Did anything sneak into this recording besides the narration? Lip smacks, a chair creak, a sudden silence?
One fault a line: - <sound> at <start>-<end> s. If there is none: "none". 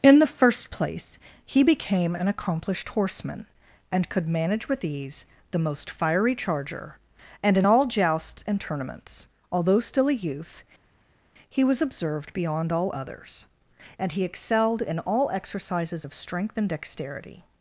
none